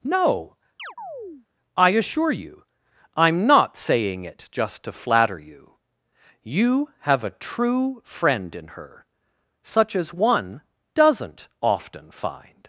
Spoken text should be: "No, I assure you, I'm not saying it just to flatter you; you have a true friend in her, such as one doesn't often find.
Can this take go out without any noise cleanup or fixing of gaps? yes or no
no